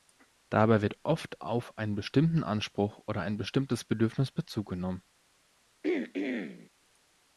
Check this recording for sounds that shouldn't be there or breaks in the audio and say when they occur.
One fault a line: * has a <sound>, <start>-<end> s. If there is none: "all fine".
* has a throat clearing, 5.8-6.7 s